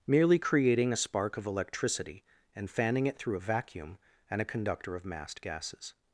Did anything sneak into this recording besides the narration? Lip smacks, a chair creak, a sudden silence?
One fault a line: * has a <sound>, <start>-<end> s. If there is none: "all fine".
all fine